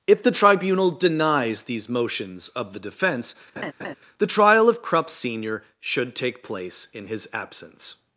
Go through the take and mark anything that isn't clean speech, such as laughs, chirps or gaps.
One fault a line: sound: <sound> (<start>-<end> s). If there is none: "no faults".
sound: laugh (3.6-3.9 s)